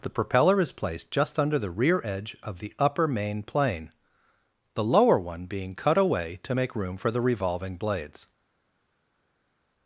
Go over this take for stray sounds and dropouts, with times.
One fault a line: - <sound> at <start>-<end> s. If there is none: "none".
none